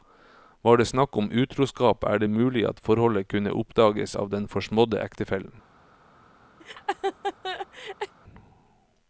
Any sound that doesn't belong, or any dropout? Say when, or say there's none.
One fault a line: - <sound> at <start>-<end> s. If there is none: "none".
- laugh at 6.6-8.1 s